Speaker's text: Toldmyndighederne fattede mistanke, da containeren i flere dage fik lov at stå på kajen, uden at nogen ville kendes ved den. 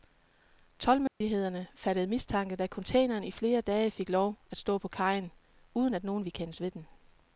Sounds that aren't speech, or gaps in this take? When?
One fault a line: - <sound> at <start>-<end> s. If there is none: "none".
- dropout at 1.1-1.2 s